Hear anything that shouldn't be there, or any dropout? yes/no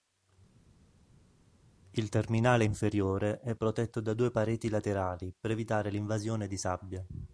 no